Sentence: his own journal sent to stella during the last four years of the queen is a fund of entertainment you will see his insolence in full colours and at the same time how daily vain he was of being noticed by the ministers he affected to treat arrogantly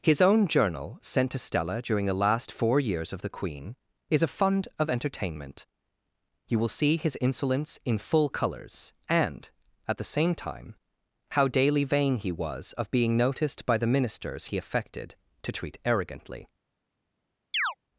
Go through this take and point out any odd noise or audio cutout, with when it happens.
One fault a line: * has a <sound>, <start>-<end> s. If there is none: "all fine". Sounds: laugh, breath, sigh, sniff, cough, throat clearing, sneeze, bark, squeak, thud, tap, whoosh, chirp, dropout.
* has a chirp, 17.5-17.7 s